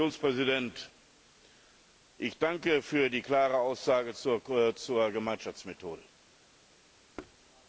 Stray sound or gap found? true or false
true